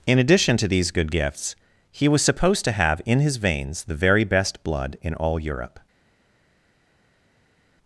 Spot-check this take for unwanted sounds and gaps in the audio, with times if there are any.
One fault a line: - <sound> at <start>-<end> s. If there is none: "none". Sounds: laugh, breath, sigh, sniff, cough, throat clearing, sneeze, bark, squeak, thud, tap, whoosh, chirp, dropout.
none